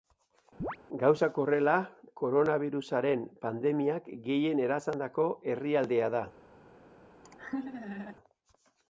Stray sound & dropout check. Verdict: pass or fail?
fail